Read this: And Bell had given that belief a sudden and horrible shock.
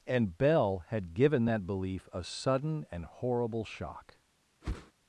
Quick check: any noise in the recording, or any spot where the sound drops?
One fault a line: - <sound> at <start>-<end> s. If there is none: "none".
- whoosh at 4.6-4.9 s